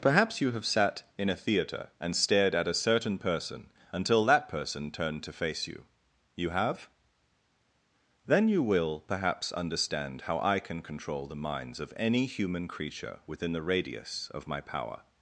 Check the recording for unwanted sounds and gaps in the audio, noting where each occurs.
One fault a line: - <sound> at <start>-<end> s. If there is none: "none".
none